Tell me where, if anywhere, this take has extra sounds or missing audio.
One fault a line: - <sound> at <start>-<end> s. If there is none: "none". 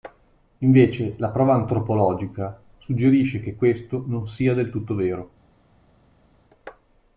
none